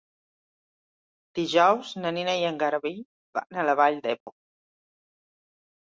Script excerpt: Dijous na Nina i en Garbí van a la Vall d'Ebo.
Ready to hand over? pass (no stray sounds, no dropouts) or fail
fail